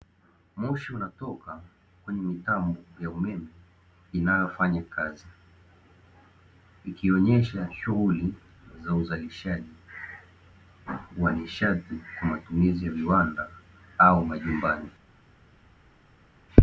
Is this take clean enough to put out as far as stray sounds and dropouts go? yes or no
yes